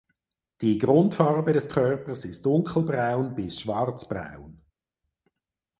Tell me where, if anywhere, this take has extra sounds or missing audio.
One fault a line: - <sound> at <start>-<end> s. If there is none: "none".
none